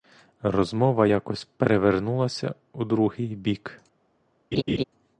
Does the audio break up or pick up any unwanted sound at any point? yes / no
yes